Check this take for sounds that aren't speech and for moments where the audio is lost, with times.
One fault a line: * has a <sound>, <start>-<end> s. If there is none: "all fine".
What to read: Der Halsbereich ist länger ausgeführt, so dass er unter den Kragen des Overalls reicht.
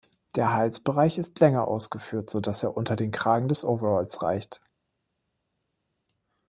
all fine